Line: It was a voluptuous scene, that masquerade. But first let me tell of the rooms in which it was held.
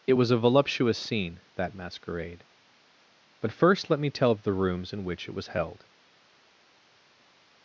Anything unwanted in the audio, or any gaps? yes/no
no